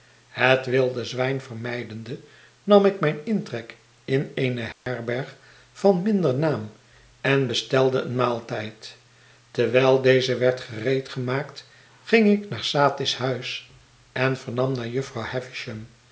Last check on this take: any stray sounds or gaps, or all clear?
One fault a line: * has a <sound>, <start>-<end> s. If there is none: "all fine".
* has a dropout, 4.7-4.9 s